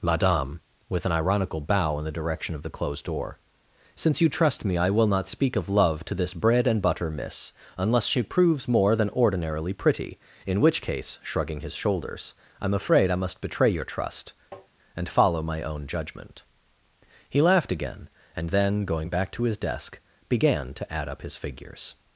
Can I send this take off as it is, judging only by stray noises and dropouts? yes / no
no